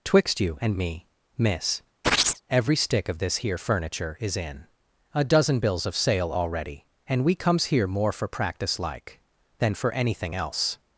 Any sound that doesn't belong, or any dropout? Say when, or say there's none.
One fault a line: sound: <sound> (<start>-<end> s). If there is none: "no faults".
sound: chirp (2.0-2.4 s)